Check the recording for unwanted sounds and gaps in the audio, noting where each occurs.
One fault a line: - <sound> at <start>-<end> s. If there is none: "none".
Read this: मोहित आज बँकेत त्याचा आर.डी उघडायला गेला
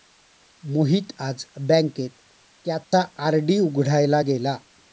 - dropout at 2.8-2.9 s